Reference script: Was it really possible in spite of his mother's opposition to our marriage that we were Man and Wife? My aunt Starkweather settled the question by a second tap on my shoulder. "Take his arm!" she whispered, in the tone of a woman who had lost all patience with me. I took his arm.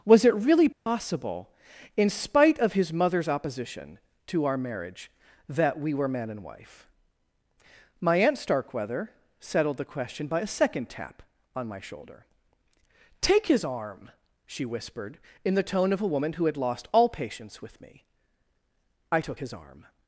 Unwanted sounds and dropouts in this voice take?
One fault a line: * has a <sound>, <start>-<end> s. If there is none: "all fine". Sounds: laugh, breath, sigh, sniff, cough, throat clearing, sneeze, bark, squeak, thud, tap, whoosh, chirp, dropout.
* has a dropout, 0.7-0.9 s